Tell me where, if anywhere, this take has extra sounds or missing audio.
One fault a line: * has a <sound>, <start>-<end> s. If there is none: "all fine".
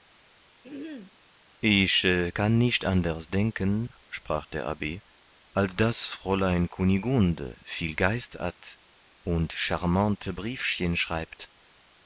* has a throat clearing, 0.6-1.2 s